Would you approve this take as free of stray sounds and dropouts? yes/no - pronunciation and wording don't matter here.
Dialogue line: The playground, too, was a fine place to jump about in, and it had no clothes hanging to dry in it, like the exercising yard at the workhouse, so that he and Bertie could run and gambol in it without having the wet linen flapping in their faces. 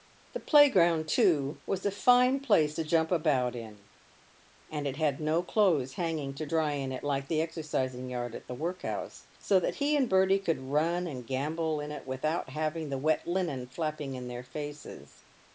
yes